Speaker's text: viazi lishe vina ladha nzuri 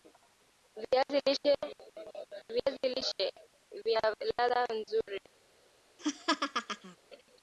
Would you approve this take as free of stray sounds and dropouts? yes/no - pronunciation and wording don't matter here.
no